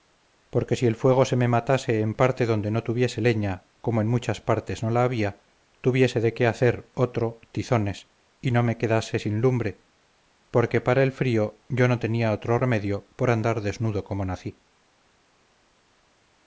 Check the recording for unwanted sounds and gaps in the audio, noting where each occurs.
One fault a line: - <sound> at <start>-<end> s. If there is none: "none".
none